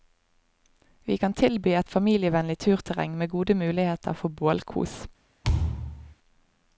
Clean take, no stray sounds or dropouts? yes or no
no